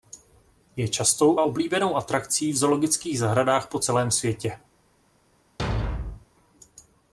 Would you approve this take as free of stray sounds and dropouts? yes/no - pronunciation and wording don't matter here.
no